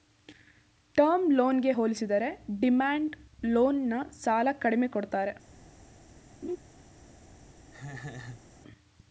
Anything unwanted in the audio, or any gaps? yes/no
yes